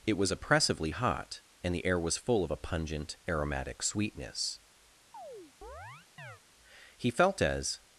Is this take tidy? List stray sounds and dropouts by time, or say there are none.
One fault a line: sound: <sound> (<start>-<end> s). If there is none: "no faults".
sound: chirp (5.1-6.4 s)